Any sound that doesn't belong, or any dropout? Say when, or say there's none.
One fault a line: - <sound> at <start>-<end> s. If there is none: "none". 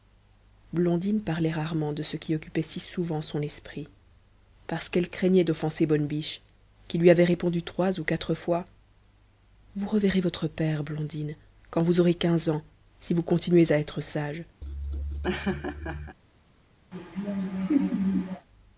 - laugh at 14.6-16.2 s
- laugh at 16.9-18.5 s